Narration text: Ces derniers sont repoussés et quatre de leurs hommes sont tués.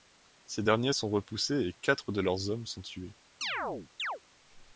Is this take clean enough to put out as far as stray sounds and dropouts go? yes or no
no